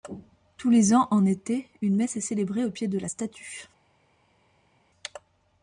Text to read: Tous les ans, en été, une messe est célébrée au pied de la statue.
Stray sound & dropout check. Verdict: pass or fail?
pass